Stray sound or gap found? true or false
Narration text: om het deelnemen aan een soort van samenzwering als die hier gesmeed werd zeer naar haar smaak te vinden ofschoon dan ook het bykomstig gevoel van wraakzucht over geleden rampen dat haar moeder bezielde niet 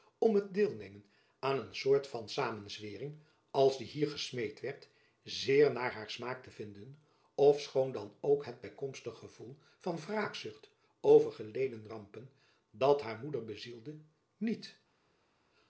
false